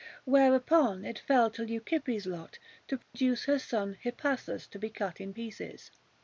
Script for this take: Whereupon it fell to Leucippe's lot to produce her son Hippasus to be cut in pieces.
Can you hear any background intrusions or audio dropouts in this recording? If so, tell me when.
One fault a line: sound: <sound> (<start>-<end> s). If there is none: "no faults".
sound: dropout (3.0-3.1 s)